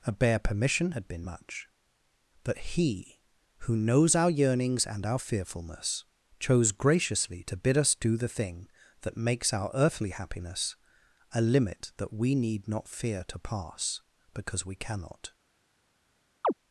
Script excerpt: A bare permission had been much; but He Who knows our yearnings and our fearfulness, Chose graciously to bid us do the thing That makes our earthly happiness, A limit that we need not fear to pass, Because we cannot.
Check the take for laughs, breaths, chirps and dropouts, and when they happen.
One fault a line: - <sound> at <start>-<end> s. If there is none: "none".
- chirp at 16.4-16.5 s